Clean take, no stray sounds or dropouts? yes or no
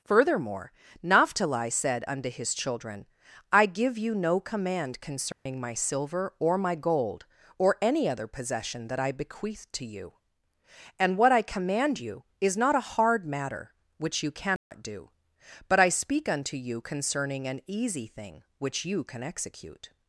no